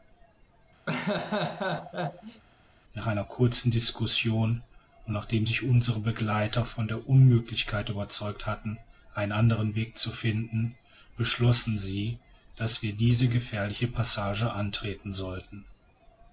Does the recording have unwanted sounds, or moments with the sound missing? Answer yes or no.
yes